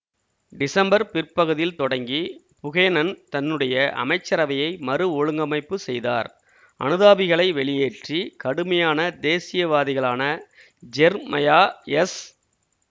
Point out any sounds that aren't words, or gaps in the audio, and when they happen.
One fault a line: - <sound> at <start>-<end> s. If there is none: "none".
none